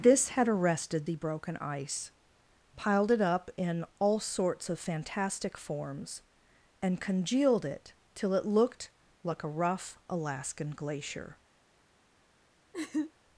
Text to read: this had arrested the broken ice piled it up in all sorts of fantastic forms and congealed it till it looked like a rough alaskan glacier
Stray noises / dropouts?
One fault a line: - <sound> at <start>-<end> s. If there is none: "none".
- laugh at 12.7-13.1 s